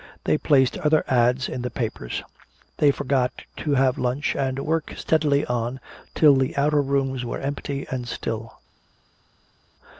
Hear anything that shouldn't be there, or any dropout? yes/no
no